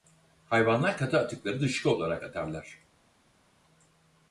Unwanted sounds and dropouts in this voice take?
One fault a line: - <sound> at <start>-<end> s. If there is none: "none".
none